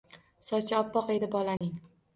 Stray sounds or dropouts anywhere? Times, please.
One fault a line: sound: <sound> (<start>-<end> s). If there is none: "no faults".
sound: dropout (1.6-1.6 s)